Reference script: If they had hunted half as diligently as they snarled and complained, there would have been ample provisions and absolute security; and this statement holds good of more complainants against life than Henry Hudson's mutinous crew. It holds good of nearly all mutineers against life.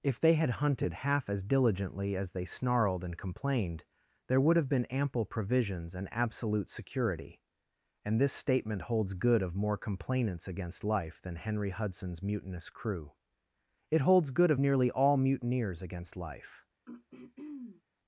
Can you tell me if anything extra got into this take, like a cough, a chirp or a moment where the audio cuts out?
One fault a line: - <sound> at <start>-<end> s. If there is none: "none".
- throat clearing at 16.9-17.8 s